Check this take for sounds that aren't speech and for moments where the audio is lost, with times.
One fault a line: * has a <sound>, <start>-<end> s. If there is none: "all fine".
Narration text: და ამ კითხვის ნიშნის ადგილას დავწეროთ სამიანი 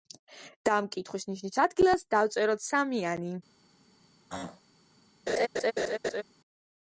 * has a throat clearing, 4.3-4.6 s
* has a laugh, 5.3-6.2 s